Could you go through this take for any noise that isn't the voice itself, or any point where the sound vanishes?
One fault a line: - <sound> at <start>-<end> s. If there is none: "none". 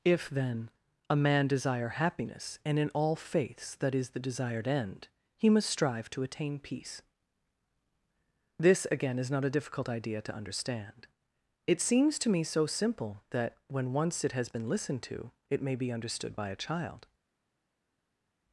none